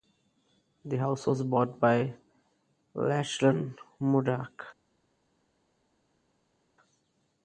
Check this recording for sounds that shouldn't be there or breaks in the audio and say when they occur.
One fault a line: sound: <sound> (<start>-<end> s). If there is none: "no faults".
no faults